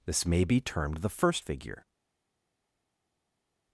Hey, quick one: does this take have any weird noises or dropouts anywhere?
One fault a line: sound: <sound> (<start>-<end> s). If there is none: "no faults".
no faults